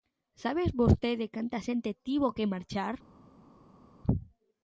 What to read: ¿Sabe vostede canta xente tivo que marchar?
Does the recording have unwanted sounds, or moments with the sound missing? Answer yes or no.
no